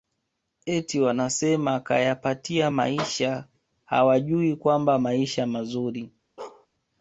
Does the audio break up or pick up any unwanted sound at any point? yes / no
yes